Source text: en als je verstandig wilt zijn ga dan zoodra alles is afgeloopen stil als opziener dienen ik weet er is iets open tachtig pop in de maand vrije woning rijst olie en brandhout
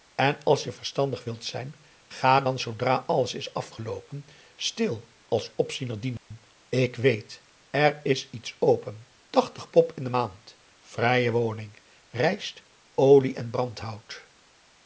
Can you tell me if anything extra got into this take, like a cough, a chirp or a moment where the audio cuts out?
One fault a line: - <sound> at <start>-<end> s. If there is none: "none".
- dropout at 6.2-6.3 s